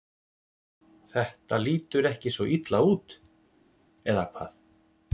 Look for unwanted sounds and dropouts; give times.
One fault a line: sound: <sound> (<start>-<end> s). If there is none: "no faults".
no faults